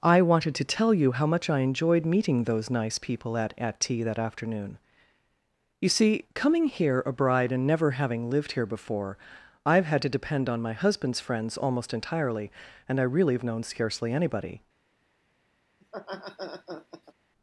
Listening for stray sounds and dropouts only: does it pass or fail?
fail